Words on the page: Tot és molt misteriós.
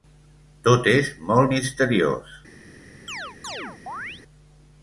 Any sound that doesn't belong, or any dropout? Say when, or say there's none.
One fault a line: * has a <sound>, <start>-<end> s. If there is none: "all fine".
* has a chirp, 3.1-4.2 s